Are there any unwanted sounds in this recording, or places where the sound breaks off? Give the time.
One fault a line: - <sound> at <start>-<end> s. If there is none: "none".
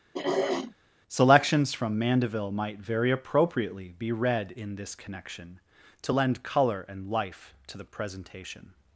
- throat clearing at 0.1-0.7 s